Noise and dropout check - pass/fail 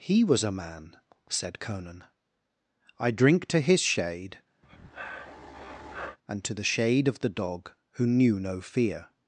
fail